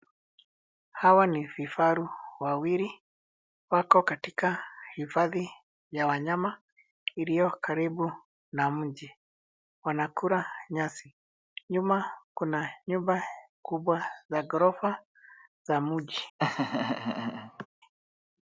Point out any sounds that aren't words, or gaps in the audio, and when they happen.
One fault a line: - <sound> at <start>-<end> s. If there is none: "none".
- laugh at 16.4-17.7 s